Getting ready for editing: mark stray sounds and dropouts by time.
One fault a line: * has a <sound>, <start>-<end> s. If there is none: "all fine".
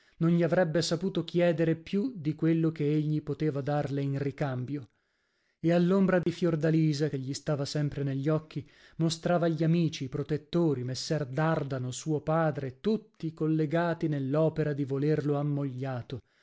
* has a dropout, 6.2-6.3 s